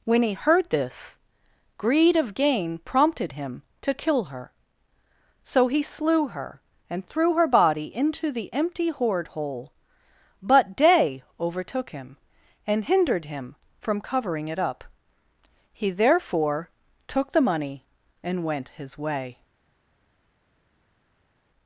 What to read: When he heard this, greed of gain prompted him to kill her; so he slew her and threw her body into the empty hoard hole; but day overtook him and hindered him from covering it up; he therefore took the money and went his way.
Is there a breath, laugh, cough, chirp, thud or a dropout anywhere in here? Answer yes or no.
no